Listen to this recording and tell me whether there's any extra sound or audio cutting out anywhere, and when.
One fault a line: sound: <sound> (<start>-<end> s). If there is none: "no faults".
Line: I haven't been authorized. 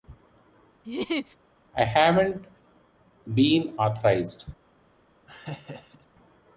sound: laugh (0.8-1.4 s)
sound: laugh (5.3-6.1 s)